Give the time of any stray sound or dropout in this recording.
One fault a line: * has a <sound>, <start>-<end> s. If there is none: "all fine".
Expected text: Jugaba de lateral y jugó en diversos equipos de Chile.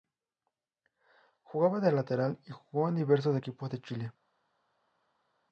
all fine